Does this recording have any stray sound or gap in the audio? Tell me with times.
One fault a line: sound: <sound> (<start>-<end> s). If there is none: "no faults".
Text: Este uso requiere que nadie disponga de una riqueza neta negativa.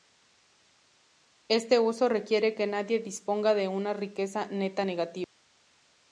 no faults